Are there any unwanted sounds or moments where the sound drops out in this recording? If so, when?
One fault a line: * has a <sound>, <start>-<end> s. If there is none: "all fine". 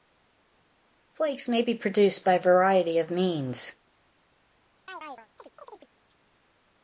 * has a chirp, 4.9-5.9 s